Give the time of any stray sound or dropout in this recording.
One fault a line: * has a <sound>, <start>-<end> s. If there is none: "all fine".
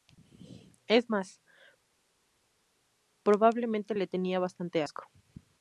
all fine